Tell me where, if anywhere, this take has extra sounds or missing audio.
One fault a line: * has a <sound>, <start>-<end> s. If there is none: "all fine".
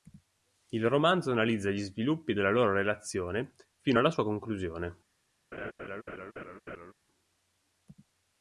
* has a laugh, 5.5-6.9 s